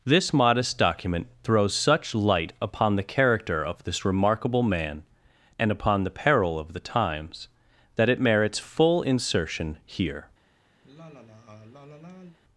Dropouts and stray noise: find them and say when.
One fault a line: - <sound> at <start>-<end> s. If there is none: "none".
- sigh at 10.8-12.4 s